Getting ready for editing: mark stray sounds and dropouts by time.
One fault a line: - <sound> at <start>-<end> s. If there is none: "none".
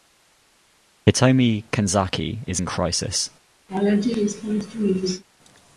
- laugh at 3.7-5.2 s